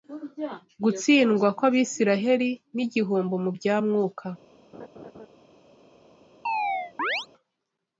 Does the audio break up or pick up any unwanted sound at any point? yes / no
yes